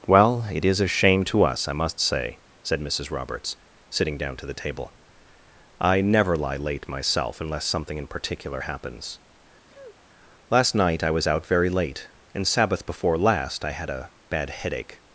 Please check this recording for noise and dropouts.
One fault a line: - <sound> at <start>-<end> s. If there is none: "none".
- sniff at 9.7-10.1 s